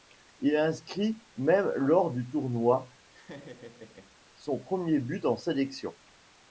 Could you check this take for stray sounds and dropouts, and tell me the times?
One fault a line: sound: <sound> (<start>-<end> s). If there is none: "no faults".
sound: laugh (3.1-4.2 s)